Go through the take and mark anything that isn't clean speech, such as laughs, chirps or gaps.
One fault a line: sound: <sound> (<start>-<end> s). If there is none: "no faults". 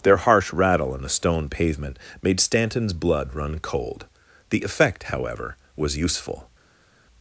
no faults